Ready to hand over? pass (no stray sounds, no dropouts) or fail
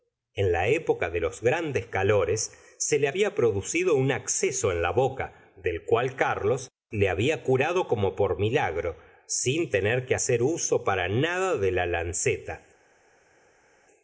pass